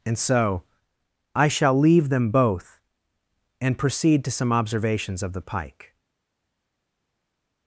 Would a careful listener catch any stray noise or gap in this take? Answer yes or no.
no